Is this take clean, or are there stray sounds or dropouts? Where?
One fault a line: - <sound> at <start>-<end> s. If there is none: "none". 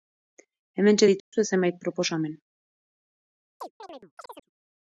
- dropout at 1.2-1.3 s
- chirp at 3.6-4.5 s